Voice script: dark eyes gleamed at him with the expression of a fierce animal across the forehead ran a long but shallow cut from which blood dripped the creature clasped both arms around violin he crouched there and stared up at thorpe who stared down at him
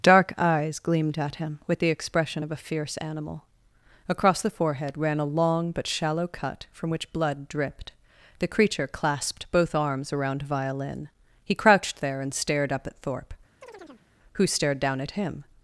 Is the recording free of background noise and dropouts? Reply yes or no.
no